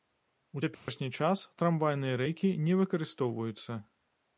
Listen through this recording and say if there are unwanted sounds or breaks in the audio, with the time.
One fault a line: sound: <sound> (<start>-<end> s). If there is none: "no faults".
sound: dropout (0.7-0.9 s)